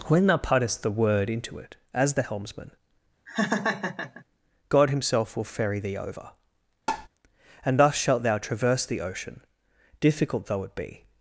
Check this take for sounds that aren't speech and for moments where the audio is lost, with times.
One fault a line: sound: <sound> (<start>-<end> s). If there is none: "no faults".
sound: laugh (3.3-4.2 s)
sound: tap (6.9-7.1 s)